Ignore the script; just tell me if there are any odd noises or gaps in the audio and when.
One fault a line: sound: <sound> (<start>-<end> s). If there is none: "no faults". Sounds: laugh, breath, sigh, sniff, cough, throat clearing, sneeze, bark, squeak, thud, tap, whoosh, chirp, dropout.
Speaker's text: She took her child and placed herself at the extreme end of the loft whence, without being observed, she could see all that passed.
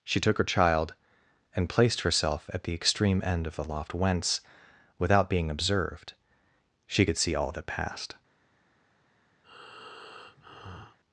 sound: breath (9.4-11.0 s)